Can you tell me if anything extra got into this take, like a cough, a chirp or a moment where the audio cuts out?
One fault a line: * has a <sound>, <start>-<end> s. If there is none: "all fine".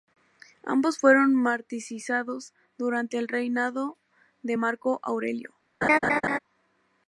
* has a laugh, 5.8-6.4 s